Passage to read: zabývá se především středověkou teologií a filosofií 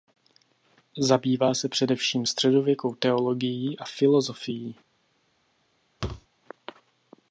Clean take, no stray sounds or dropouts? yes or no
no